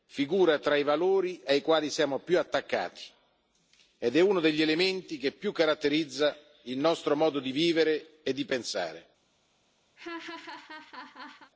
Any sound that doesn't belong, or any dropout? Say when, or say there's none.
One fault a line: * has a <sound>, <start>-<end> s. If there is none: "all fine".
* has a laugh, 10.0-11.5 s